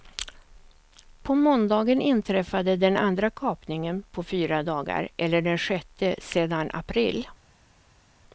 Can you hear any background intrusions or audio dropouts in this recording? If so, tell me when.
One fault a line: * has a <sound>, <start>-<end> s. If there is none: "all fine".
all fine